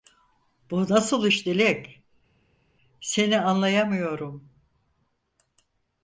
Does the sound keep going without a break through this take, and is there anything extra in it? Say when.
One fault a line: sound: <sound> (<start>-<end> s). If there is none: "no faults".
no faults